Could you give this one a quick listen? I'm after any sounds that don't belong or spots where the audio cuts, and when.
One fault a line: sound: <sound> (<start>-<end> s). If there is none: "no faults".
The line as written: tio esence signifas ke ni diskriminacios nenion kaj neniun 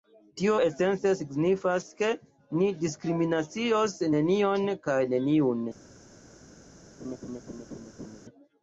sound: laugh (7.0-8.2 s)